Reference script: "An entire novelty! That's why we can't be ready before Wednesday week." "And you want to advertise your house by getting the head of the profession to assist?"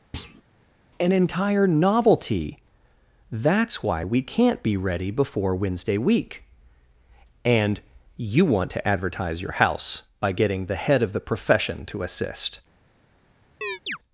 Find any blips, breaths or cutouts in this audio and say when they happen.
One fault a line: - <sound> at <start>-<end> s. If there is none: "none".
- thud at 0.1-0.4 s
- chirp at 13.6-14.0 s